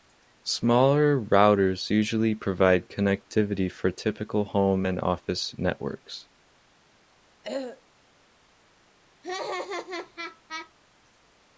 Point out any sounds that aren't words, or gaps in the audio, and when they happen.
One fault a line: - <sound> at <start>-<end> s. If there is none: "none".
- throat clearing at 7.4-7.8 s
- laugh at 9.2-10.7 s